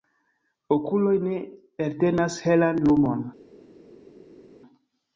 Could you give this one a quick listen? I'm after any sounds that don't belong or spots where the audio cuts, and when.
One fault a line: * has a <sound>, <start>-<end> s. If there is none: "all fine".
all fine